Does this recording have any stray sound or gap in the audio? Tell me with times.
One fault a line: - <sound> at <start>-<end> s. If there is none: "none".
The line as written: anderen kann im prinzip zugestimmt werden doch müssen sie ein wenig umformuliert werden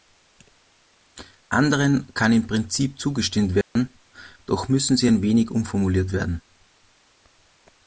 - dropout at 3.6-3.8 s